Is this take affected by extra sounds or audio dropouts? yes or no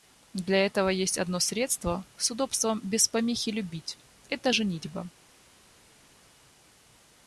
no